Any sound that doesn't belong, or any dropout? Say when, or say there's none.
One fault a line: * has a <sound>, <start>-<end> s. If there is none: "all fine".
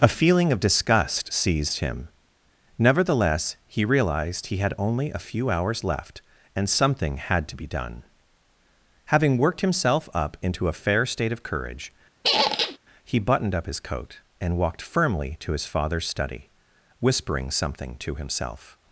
* has a squeak, 12.2-12.8 s